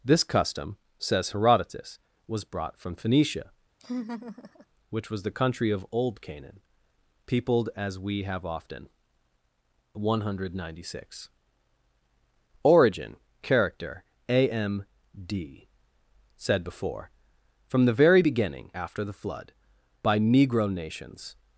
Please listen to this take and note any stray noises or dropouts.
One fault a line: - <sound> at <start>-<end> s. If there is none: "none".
- laugh at 3.8-4.7 s